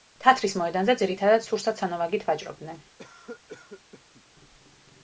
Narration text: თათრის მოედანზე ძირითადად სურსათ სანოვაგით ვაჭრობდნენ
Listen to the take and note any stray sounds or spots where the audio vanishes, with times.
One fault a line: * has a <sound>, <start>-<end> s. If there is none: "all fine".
* has a cough, 3.0-4.2 s